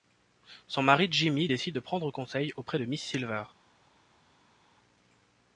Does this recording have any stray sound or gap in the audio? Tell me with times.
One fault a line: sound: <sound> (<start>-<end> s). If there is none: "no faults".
no faults